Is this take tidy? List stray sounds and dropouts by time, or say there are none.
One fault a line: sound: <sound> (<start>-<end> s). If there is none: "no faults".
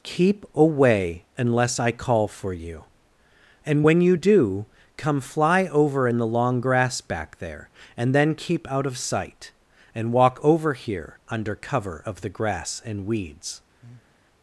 sound: breath (13.8-14.2 s)